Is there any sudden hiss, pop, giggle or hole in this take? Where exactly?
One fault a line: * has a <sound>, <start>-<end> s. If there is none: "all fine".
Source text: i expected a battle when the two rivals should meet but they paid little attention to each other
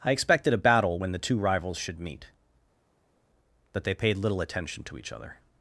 all fine